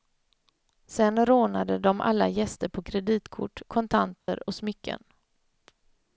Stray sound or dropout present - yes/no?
yes